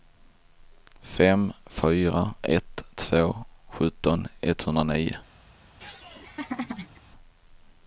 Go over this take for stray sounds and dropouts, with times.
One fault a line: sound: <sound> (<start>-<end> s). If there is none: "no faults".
sound: laugh (5.8-7.0 s)